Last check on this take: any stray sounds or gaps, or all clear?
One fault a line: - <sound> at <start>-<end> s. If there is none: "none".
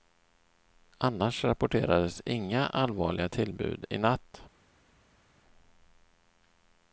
none